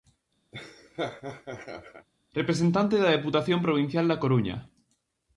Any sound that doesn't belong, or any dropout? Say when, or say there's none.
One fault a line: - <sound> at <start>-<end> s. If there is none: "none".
- laugh at 0.5-2.1 s